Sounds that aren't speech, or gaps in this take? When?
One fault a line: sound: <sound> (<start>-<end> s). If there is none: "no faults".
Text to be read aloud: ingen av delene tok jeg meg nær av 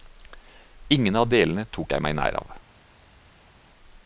no faults